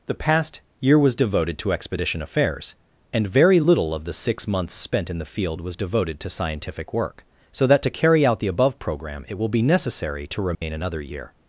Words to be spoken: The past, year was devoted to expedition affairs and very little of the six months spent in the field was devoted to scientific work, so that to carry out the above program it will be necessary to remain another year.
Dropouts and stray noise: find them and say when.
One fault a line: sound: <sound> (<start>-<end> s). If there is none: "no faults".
sound: dropout (10.5-10.6 s)